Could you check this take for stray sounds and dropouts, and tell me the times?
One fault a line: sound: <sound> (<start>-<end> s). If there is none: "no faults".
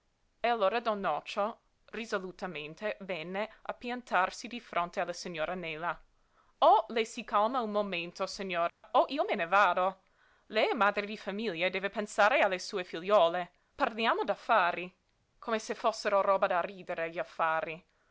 sound: dropout (8.7-8.8 s)